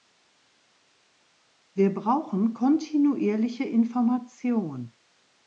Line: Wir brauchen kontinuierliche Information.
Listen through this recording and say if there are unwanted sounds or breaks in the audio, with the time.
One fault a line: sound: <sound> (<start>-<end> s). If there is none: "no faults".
no faults